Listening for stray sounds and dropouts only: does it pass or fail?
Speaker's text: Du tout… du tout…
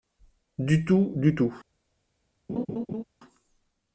fail